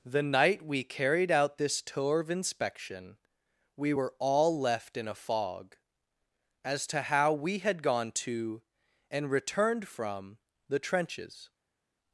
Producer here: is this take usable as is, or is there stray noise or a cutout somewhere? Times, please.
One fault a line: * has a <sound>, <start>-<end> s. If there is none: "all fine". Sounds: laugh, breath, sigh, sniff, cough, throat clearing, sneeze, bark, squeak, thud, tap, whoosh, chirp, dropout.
all fine